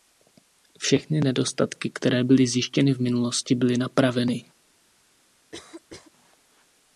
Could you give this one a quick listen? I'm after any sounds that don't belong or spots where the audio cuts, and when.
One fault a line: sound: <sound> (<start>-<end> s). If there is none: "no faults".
sound: cough (5.5-6.1 s)